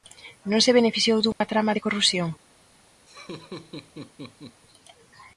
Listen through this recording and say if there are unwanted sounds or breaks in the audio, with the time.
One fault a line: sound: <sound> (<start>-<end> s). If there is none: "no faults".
sound: dropout (1.3-1.4 s)
sound: laugh (3.1-4.6 s)